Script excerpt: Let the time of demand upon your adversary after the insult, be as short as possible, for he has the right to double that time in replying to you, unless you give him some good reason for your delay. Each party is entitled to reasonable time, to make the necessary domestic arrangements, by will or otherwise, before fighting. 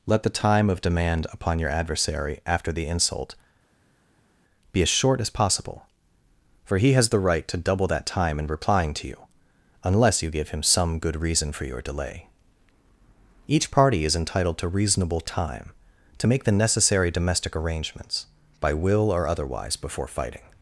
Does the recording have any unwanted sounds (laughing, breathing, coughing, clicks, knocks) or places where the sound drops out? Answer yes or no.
no